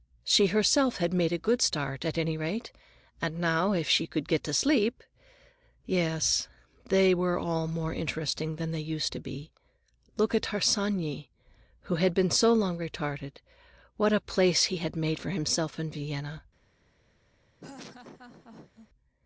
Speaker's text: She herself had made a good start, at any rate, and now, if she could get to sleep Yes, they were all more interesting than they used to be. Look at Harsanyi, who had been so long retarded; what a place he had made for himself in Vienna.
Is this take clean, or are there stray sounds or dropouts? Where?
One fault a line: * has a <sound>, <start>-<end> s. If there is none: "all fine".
* has a laugh, 17.6-18.9 s